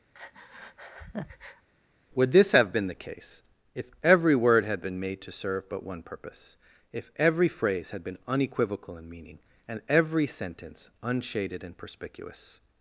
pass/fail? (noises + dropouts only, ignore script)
fail